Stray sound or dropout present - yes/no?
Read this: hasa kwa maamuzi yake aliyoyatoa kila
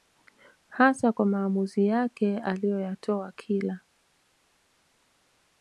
no